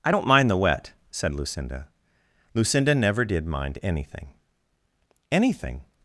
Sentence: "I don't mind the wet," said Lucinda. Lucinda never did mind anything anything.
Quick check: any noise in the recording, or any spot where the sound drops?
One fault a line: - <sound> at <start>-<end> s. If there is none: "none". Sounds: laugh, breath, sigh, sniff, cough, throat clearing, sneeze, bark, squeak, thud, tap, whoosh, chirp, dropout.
none